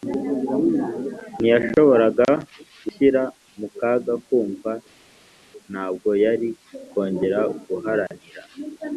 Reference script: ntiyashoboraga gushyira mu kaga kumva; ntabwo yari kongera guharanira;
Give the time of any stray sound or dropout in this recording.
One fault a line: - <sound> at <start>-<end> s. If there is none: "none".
none